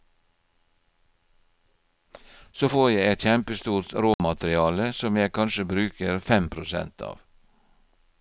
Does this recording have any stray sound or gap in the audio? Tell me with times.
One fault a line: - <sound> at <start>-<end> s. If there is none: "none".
- dropout at 4.1-4.2 s